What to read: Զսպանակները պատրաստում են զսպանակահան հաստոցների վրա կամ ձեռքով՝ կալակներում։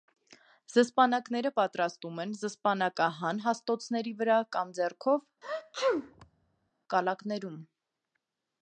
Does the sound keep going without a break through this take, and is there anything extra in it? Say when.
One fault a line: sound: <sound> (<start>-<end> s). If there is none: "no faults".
sound: sneeze (5.4-6.7 s)